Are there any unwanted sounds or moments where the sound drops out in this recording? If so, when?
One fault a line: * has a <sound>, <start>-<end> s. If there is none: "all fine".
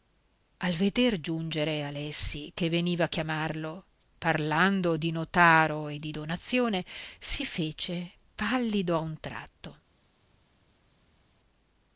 all fine